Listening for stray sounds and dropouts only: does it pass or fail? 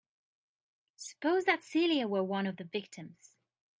pass